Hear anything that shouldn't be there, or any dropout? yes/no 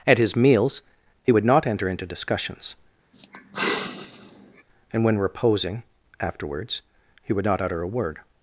yes